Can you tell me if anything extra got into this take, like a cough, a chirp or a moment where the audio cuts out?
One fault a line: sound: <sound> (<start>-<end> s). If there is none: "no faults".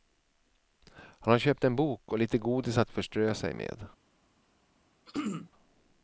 sound: throat clearing (5.1-5.5 s)